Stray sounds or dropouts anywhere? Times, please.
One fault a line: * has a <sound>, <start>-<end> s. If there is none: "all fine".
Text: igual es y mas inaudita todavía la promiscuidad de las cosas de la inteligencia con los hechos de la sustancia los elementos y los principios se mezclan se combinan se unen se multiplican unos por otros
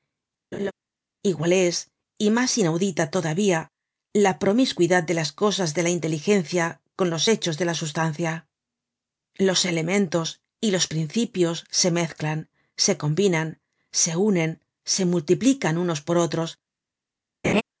* has a laugh, 0.5-0.7 s
* has a laugh, 17.4-17.6 s